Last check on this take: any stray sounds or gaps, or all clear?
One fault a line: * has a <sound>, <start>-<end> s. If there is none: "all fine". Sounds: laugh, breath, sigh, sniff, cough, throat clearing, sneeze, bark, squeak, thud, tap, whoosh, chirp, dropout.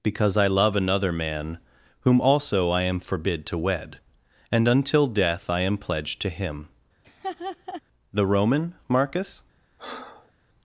* has a laugh, 7.0-7.8 s
* has a breath, 9.8-10.3 s